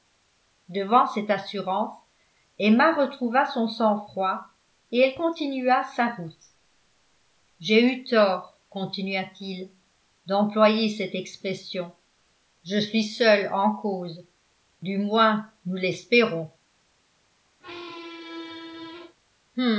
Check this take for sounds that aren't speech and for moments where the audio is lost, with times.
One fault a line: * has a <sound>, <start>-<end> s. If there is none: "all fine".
* has a squeak, 17.6-19.2 s